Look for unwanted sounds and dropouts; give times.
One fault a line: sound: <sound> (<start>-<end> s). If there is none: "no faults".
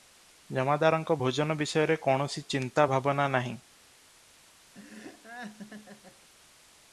sound: laugh (4.7-6.3 s)